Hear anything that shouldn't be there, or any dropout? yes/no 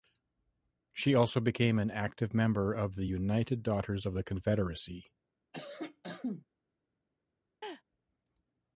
yes